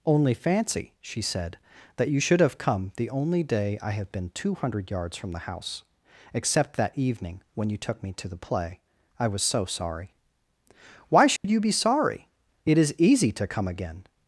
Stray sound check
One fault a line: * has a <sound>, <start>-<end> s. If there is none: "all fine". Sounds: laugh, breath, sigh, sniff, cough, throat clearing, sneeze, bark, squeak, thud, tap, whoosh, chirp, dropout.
* has a dropout, 11.4-11.4 s